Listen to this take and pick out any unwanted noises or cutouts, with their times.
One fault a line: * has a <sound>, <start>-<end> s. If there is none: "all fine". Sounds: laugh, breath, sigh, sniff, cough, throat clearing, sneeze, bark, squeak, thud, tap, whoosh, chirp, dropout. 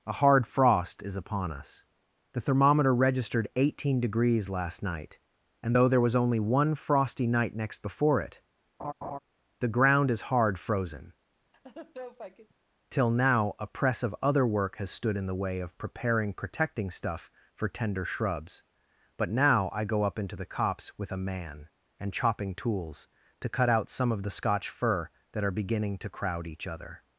* has a laugh, 8.8-9.2 s
* has a laugh, 11.5-12.5 s